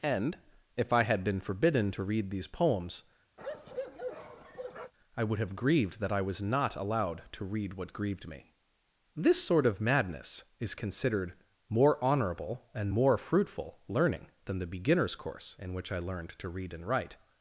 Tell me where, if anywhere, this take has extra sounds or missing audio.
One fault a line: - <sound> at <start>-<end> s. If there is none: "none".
- bark at 3.4-4.9 s